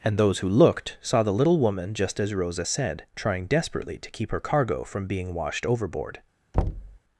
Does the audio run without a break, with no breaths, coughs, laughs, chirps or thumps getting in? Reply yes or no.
no